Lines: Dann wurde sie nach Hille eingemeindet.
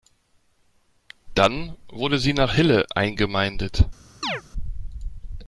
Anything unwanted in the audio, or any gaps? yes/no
yes